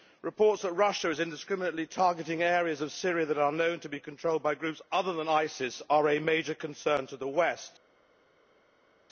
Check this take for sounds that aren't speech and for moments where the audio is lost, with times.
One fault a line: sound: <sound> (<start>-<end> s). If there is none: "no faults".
no faults